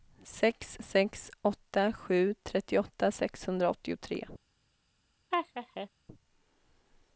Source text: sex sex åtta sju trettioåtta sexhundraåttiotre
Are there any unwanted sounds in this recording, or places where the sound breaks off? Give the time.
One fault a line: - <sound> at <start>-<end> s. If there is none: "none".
- laugh at 5.3-5.9 s